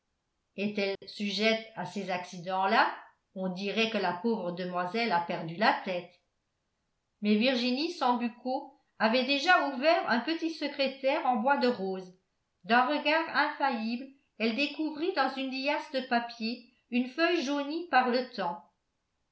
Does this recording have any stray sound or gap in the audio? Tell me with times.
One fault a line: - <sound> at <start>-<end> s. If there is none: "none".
- dropout at 1.0-1.0 s